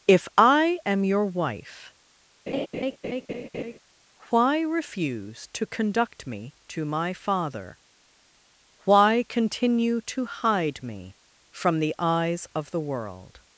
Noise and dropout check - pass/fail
fail